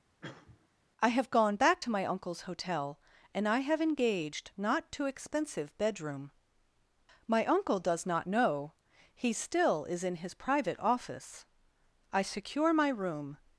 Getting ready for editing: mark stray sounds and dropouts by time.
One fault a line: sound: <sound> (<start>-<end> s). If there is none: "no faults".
sound: cough (0.2-0.7 s)